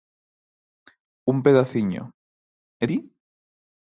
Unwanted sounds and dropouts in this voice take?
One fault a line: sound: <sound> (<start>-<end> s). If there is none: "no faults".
no faults